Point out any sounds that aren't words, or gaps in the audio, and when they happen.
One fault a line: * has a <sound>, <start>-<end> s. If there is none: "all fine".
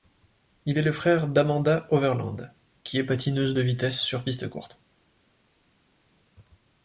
all fine